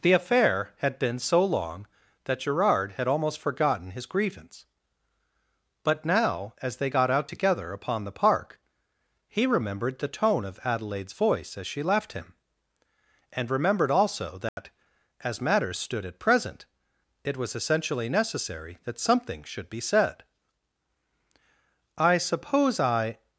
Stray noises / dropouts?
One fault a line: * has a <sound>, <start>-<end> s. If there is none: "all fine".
* has a dropout, 14.5-14.6 s